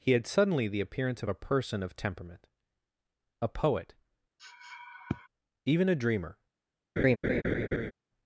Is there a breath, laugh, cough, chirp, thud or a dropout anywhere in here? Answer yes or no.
yes